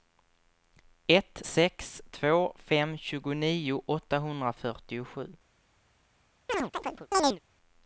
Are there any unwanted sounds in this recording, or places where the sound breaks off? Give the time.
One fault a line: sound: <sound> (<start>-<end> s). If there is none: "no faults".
sound: chirp (6.5-7.4 s)